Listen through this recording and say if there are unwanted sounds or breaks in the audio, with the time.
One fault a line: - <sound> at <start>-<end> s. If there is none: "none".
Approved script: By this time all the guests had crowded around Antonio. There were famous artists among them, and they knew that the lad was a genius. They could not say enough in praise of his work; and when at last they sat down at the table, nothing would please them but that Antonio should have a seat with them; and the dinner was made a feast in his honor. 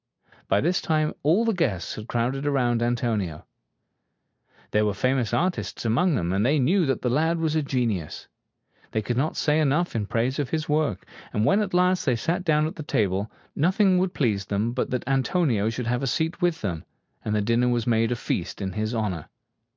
none